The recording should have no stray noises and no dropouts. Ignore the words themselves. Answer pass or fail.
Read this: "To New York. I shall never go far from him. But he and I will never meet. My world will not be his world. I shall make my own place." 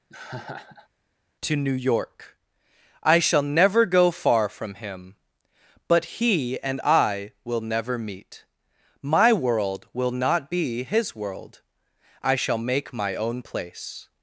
fail